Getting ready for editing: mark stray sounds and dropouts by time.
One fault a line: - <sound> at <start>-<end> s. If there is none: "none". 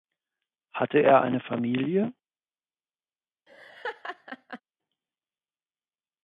- laugh at 3.5-4.6 s